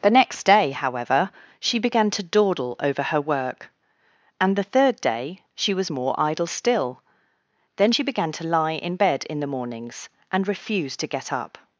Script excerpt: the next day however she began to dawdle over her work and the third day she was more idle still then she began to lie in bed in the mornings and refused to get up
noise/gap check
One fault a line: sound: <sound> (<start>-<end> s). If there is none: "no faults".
no faults